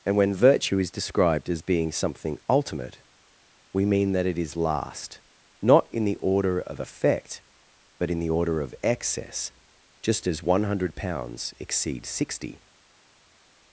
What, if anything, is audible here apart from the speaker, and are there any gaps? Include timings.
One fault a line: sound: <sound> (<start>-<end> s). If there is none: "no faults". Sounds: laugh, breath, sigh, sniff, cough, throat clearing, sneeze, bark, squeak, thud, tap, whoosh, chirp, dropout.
no faults